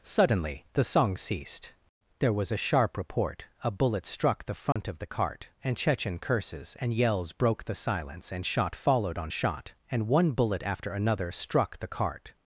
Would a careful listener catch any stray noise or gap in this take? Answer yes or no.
yes